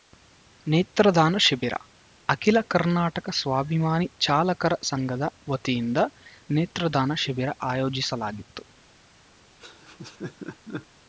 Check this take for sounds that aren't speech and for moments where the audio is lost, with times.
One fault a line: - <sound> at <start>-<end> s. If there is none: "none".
- laugh at 9.6-10.9 s